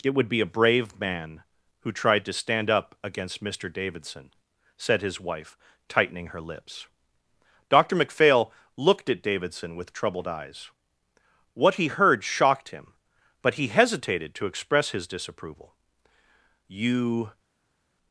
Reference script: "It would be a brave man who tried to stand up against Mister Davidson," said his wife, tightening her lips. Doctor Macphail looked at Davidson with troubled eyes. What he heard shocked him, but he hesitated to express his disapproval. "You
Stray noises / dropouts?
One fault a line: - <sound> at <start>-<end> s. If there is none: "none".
none